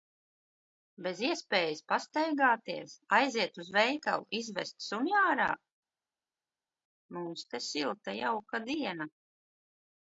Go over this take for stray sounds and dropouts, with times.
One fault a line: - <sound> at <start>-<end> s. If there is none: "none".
none